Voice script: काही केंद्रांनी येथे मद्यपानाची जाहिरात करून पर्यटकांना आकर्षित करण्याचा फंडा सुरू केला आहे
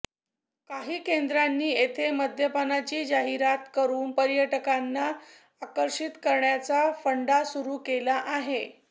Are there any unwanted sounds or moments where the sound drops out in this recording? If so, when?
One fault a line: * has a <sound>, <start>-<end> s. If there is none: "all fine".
all fine